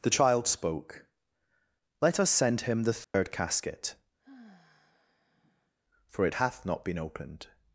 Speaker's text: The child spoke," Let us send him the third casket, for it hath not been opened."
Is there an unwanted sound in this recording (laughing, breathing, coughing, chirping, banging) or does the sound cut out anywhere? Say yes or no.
yes